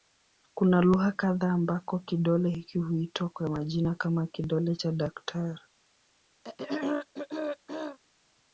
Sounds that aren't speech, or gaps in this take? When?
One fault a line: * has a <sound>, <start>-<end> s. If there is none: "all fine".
* has a throat clearing, 6.4-8.0 s